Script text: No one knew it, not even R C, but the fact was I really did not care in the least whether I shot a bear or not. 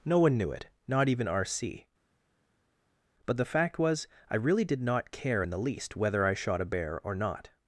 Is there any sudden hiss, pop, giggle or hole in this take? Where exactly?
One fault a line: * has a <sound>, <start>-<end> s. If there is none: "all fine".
all fine